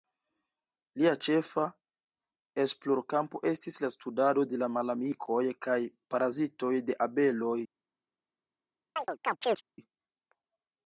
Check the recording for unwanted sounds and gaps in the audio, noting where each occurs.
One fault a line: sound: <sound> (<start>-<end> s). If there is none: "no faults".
sound: chirp (9.0-9.6 s)